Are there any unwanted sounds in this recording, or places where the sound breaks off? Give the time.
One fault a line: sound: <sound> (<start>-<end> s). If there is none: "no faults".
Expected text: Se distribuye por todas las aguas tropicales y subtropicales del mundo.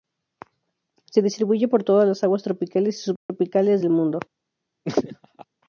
sound: dropout (3.2-3.3 s)
sound: laugh (4.8-5.4 s)